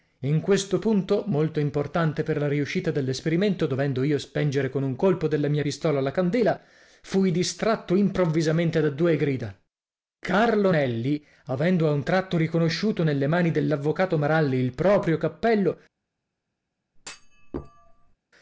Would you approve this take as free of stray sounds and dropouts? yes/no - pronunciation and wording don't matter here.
no